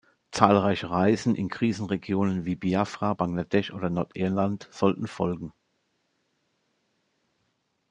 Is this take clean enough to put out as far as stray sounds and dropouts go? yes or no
yes